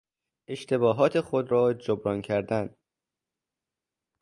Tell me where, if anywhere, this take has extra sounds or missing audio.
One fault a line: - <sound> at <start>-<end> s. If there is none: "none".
none